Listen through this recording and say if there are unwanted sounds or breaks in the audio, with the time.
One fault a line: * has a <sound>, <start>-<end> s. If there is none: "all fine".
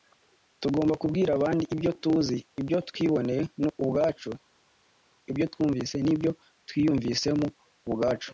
all fine